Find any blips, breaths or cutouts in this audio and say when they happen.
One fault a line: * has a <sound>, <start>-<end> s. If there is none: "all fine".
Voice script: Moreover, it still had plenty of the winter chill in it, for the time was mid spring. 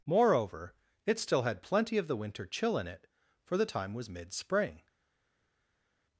all fine